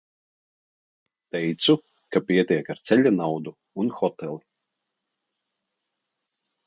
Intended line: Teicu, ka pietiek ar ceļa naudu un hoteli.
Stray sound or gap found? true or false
false